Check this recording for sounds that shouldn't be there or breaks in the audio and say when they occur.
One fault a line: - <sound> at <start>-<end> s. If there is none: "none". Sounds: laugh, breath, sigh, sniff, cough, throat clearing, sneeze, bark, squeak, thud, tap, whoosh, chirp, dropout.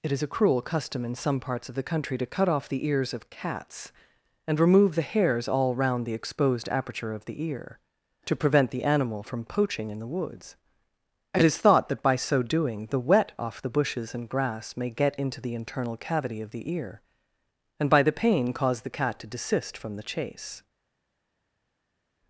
none